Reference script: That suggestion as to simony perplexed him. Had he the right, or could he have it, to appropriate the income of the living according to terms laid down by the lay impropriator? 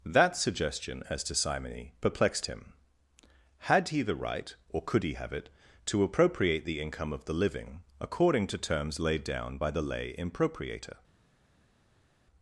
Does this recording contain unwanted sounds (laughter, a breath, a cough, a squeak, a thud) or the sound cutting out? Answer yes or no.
no